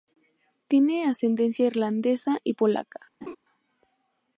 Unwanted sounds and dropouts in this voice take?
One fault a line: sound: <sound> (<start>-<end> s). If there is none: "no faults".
sound: laugh (3.2-3.4 s)